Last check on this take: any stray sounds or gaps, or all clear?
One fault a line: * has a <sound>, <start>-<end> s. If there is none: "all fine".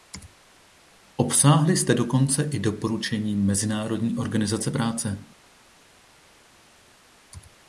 all fine